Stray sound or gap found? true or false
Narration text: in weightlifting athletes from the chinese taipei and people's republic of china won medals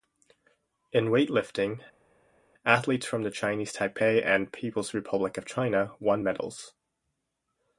false